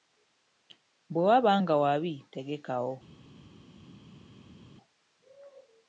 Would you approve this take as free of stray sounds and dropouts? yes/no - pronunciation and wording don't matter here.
yes